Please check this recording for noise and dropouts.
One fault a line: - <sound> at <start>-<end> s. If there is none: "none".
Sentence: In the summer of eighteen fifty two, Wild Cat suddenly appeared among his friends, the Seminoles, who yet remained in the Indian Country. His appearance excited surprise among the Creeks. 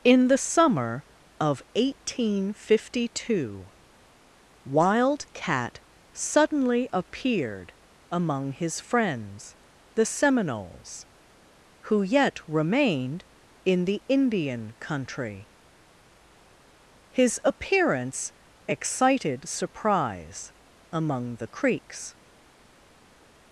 none